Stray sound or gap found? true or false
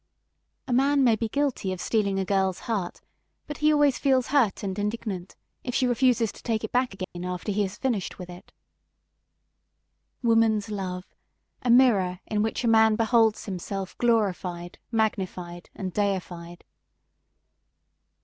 true